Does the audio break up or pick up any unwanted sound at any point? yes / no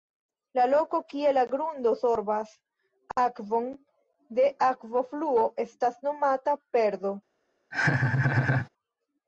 yes